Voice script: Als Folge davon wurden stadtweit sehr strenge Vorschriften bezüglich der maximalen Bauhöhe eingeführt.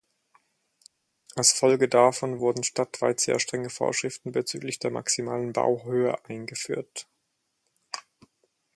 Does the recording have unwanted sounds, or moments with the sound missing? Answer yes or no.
no